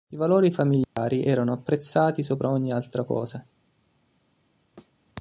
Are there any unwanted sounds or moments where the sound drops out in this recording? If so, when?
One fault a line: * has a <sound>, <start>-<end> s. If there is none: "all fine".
* has a dropout, 0.8-1.0 s
* has a thud, 4.8-5.0 s